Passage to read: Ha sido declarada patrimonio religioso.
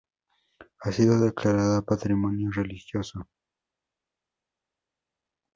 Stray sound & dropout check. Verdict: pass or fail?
pass